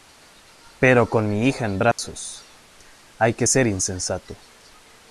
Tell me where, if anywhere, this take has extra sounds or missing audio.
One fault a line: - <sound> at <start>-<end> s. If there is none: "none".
- dropout at 1.9-2.0 s